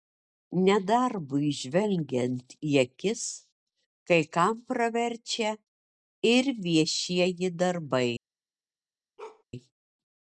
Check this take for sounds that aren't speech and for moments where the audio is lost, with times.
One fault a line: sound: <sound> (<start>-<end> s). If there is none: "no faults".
sound: bark (9.2-9.4 s)